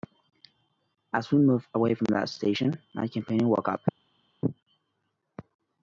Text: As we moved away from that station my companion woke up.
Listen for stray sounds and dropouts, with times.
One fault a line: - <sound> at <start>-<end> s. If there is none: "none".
none